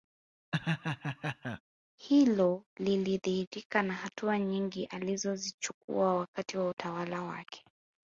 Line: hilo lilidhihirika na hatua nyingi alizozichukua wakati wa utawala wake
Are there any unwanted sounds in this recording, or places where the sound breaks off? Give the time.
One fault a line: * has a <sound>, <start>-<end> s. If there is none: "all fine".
* has a laugh, 0.5-1.6 s